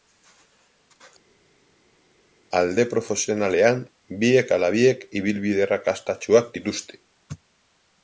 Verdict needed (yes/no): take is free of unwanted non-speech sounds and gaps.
yes